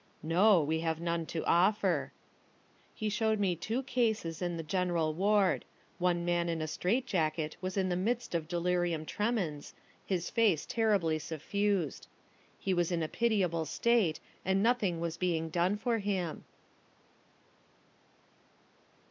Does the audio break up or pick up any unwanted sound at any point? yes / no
no